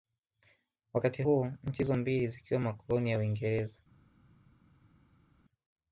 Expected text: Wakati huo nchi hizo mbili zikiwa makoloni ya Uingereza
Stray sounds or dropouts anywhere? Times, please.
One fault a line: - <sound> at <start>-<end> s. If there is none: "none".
none